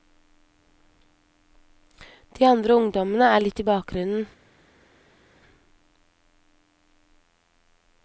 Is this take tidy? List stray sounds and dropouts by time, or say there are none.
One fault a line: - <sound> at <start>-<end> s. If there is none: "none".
none